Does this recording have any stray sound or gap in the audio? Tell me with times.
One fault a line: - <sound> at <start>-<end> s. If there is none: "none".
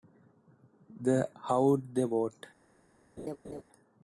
- laugh at 3.2-3.6 s